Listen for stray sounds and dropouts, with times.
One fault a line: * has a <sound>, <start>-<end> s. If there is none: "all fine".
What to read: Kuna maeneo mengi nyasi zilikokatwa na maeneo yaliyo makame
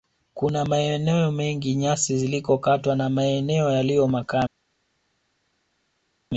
all fine